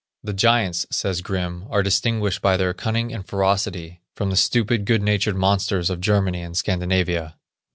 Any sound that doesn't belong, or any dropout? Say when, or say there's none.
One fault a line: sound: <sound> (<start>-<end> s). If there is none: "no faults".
no faults